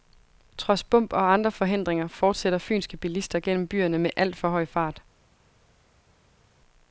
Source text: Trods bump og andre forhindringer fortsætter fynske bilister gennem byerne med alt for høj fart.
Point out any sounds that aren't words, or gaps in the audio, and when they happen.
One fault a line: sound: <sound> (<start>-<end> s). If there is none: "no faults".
no faults